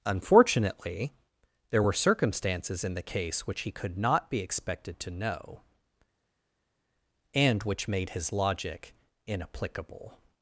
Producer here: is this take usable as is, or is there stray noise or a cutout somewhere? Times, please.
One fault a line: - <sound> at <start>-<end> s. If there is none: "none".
none